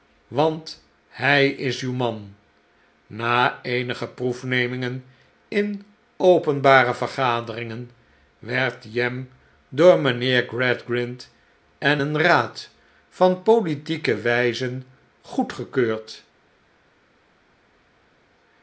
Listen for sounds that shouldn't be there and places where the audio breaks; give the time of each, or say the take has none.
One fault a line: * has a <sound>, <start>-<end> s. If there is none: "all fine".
all fine